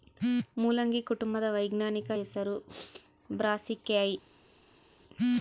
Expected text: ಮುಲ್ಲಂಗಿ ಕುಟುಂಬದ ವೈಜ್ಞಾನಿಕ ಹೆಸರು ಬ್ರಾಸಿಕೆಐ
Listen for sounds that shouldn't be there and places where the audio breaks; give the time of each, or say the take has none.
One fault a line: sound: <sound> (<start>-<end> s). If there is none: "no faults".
no faults